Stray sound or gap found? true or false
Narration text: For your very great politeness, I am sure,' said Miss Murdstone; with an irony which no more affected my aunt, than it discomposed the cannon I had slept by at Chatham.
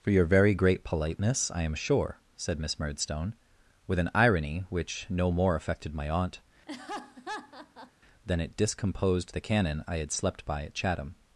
true